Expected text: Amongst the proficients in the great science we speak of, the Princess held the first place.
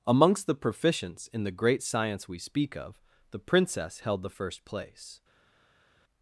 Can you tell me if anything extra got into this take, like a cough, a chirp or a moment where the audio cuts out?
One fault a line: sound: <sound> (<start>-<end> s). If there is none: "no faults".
no faults